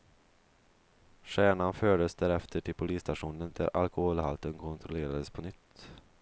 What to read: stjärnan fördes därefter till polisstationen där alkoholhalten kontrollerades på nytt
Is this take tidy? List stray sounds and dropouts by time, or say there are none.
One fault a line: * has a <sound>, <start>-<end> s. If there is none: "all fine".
all fine